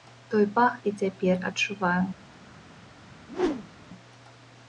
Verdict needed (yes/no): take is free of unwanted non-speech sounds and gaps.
no